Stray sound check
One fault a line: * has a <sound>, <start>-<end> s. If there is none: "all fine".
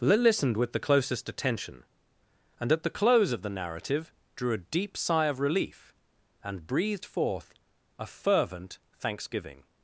all fine